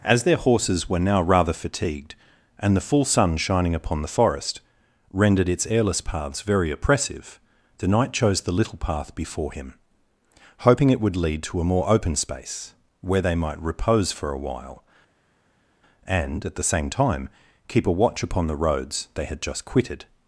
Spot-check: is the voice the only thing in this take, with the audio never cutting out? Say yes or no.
yes